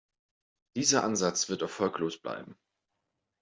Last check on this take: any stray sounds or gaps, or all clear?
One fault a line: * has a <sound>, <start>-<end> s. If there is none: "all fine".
all fine